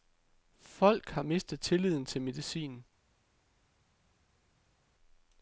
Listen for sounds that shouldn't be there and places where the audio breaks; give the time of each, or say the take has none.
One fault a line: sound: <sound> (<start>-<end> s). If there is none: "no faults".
no faults